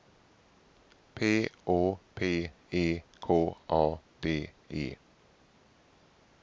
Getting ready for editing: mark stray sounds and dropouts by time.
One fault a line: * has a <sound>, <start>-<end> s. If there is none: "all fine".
all fine